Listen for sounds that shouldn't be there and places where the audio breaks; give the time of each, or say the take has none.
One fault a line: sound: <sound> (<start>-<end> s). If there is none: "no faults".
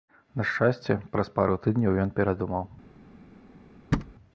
sound: thud (3.9-4.1 s)